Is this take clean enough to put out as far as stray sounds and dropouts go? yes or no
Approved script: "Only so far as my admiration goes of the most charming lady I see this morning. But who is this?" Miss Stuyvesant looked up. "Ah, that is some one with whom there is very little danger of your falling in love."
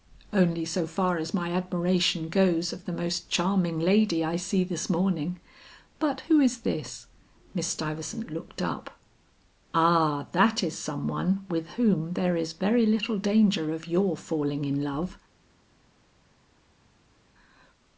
yes